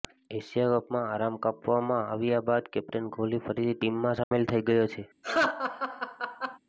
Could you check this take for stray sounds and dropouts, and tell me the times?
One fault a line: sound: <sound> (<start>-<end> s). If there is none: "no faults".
sound: dropout (4.2-4.3 s)
sound: laugh (5.2-6.6 s)